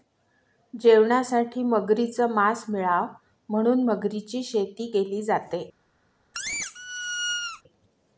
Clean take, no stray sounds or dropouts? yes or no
no